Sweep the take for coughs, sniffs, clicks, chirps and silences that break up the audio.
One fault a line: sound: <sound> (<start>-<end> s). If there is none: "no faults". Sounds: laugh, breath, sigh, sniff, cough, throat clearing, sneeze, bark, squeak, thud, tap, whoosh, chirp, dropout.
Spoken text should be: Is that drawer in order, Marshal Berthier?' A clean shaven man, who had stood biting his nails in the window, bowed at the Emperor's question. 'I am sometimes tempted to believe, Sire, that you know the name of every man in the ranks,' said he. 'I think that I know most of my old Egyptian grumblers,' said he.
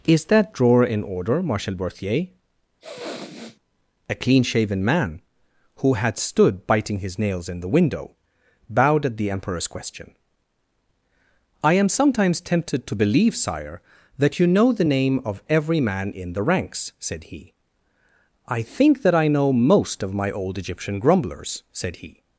sound: sniff (2.8-3.6 s)